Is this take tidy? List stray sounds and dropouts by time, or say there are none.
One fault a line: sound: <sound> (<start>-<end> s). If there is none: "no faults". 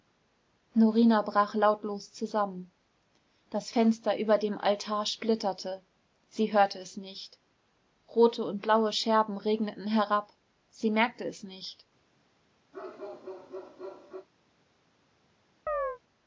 sound: bark (12.7-14.3 s)
sound: chirp (15.7-16.0 s)